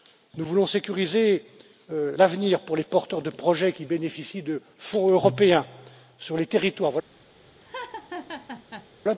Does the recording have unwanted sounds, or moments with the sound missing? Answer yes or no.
yes